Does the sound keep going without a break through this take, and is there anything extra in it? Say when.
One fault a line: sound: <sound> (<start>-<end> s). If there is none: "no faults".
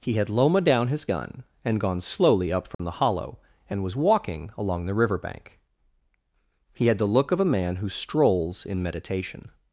sound: dropout (2.7-2.8 s)